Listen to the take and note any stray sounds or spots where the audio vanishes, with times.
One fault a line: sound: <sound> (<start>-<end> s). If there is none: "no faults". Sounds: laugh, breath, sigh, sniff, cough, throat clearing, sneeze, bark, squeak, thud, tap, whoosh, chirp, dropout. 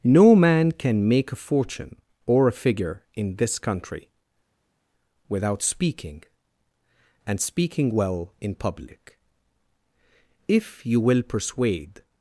no faults